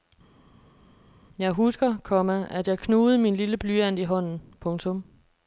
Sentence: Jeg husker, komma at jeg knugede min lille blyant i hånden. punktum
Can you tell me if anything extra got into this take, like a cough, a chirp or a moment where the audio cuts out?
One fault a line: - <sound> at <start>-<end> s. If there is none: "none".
none